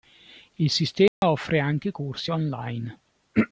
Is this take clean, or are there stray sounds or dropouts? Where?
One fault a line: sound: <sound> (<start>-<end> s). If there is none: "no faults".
sound: dropout (1.1-1.2 s)